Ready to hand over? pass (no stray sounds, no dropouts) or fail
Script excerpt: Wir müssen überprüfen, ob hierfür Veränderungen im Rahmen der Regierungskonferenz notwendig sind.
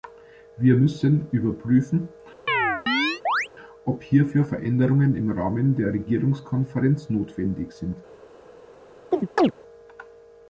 fail